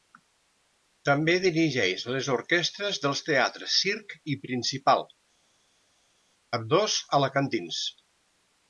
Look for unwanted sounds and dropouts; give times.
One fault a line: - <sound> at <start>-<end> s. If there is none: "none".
none